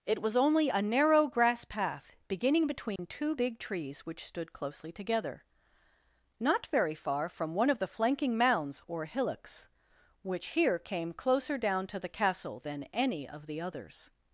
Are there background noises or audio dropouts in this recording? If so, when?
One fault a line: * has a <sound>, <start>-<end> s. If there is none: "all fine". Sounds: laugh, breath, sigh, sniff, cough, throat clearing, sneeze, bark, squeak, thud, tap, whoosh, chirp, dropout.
* has a dropout, 3.0-3.0 s